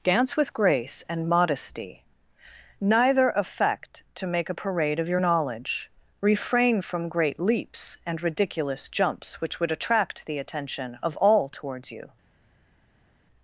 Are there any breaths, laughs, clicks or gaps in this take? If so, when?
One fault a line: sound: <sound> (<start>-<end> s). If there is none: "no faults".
no faults